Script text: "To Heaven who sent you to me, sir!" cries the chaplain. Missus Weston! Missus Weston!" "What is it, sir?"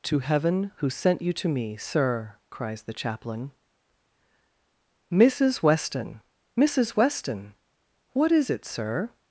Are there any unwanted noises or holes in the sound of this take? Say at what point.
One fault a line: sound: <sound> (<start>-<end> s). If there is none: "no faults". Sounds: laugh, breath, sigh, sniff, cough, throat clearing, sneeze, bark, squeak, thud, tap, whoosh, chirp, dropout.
no faults